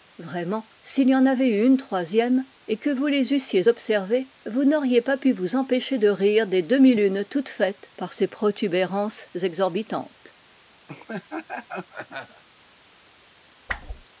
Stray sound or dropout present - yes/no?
yes